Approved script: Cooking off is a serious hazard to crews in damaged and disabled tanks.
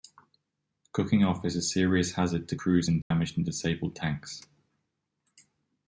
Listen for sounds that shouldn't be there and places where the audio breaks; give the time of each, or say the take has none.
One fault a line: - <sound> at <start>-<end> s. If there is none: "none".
- dropout at 3.0-3.1 s